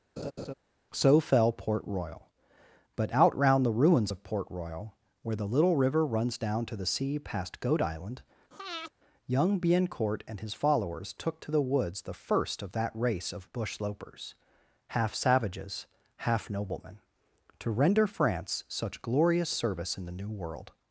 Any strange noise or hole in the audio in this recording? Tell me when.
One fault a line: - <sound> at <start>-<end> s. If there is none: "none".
- laugh at 0.2-0.5 s
- breath at 8.5-8.9 s